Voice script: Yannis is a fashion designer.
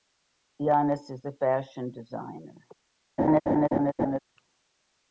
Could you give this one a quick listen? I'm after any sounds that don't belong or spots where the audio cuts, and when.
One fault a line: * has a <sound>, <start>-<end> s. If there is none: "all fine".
* has a laugh, 3.2-4.2 s